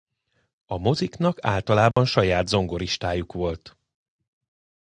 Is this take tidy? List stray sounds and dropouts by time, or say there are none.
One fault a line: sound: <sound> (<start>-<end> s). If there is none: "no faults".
sound: dropout (1.9-2.0 s)